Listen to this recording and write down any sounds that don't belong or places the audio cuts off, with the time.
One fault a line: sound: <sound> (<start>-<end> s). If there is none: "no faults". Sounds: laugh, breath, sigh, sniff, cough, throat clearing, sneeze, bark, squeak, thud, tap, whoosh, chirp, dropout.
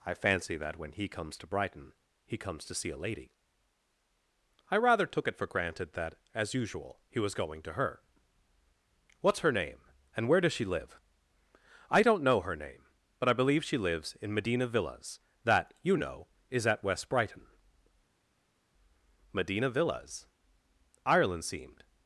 no faults